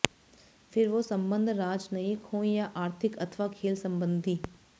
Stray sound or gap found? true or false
false